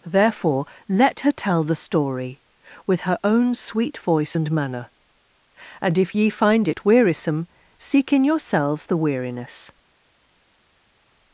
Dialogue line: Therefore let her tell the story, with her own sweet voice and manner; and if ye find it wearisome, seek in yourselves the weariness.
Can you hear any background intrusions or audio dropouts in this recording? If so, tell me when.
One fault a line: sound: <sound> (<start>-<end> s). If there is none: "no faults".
no faults